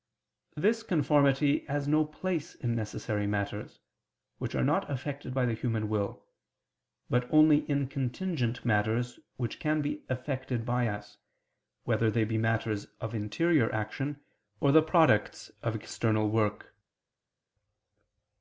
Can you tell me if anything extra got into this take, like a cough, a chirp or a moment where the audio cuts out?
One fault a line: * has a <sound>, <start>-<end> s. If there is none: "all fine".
all fine